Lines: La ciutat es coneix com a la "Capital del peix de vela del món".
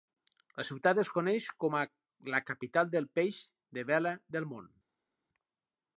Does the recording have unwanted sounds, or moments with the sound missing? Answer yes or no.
no